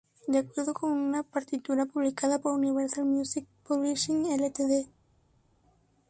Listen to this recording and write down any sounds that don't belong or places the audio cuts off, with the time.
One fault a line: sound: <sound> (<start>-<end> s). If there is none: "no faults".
no faults